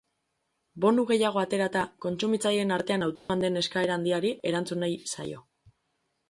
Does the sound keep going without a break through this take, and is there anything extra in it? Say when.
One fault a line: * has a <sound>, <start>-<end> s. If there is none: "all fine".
* has a dropout, 3.2-3.3 s